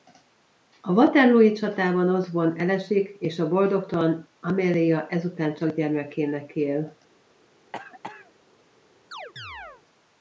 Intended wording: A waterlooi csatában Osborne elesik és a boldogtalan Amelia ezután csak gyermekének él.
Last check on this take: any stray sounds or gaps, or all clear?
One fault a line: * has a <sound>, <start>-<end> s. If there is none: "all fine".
* has a cough, 7.7-8.3 s
* has a chirp, 9.1-9.8 s